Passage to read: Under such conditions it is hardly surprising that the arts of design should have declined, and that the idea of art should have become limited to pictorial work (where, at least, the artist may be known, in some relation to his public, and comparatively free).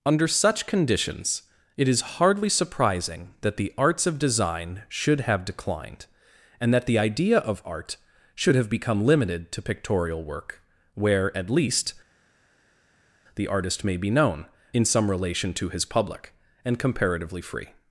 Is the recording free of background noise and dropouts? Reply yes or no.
yes